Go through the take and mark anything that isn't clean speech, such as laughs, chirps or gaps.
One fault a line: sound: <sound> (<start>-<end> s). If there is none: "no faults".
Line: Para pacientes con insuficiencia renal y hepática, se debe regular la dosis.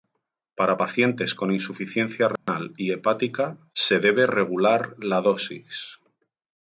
sound: dropout (2.4-2.5 s)